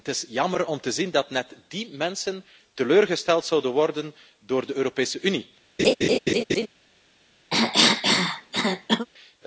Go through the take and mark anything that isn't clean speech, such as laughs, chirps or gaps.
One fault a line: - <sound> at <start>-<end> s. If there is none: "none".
- laugh at 5.8-6.7 s
- cough at 7.5-9.1 s